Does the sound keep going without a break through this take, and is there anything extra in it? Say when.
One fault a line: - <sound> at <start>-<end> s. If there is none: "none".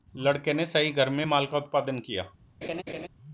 - laugh at 2.6-3.1 s